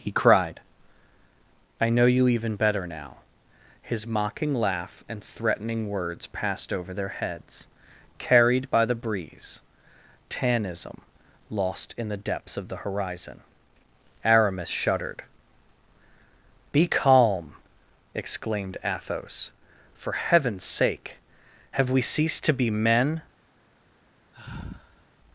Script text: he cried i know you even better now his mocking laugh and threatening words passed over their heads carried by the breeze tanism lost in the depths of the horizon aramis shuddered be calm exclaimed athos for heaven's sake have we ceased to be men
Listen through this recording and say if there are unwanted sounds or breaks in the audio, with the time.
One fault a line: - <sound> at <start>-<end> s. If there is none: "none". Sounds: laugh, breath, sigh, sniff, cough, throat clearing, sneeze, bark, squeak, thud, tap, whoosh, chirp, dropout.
- sigh at 24.3-25.1 s